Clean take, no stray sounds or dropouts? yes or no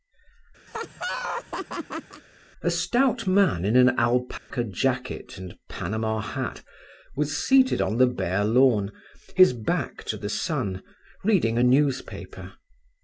no